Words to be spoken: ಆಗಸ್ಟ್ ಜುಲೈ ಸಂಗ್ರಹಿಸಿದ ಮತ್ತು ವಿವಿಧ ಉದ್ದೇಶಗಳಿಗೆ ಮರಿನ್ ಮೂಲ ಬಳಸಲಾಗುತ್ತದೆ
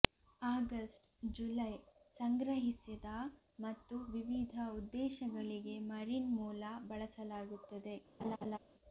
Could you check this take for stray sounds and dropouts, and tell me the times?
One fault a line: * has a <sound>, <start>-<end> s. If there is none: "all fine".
* has a laugh, 8.2-8.6 s